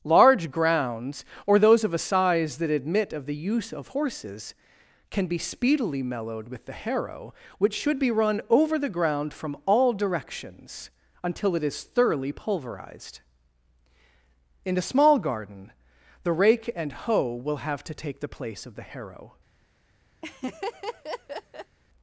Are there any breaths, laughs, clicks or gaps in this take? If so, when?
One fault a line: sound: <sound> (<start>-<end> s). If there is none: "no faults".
sound: laugh (20.2-21.8 s)